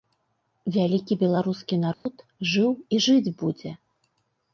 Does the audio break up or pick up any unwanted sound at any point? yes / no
yes